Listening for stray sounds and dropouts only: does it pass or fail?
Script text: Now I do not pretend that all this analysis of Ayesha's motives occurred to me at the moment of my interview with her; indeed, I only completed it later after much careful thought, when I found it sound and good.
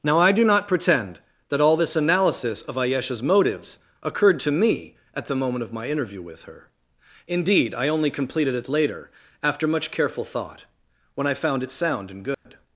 fail